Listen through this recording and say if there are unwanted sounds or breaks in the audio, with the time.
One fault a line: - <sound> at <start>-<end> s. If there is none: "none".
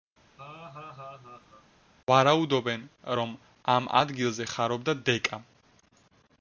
- laugh at 0.4-1.7 s